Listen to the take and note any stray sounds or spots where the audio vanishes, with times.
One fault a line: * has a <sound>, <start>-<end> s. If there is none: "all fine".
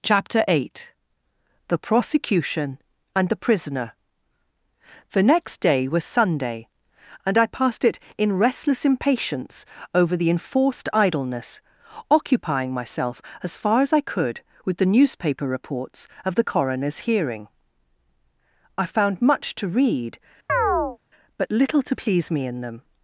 * has a chirp, 20.5-21.0 s